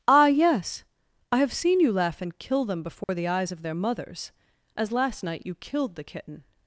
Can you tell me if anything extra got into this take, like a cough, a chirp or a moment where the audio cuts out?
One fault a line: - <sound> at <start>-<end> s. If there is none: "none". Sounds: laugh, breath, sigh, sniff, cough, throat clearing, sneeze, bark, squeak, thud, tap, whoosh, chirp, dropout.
- dropout at 3.0-3.1 s